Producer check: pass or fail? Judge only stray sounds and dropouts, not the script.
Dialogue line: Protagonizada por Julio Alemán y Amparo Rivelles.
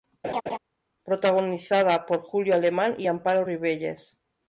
fail